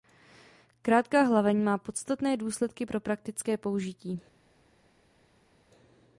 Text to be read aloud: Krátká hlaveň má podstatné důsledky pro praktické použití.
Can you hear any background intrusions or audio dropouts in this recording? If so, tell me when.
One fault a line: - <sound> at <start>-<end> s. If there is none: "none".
none